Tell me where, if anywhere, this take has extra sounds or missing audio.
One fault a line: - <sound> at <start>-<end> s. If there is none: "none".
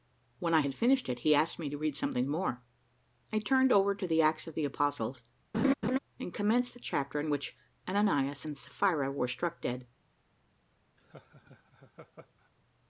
- laugh at 5.5-6.0 s
- laugh at 11.0-12.5 s